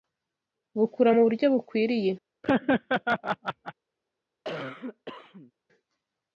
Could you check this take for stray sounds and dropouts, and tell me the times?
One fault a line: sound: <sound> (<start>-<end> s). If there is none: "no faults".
sound: laugh (2.4-3.7 s)
sound: cough (4.4-5.5 s)